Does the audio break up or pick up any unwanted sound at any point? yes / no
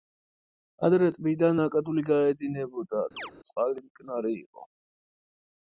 yes